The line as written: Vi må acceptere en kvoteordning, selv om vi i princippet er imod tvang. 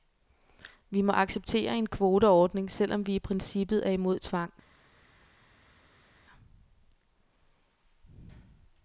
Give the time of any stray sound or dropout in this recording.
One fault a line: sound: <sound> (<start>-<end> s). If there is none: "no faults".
no faults